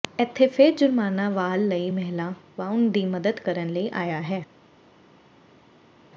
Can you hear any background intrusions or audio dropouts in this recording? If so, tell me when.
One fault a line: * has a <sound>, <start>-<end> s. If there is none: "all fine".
all fine